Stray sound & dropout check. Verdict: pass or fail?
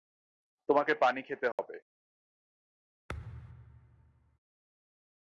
fail